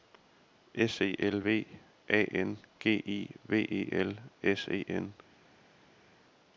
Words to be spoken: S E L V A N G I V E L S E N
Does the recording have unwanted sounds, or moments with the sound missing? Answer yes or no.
no